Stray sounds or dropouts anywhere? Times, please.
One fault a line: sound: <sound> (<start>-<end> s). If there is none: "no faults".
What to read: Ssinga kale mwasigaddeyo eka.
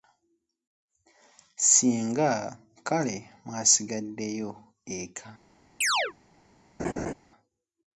sound: chirp (5.8-6.1 s)
sound: laugh (6.8-7.1 s)